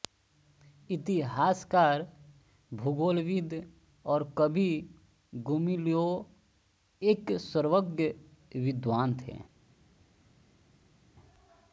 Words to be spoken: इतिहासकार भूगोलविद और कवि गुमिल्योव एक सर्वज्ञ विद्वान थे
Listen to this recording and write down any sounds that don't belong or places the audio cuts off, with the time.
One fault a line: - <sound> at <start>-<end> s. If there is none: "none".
none